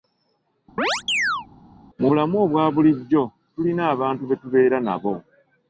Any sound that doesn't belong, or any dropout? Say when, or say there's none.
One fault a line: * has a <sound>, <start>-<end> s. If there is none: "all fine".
* has a chirp, 0.8-1.5 s